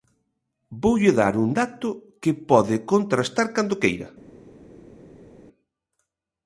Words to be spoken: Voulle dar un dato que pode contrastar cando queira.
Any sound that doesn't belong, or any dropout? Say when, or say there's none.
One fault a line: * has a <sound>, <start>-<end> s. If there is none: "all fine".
all fine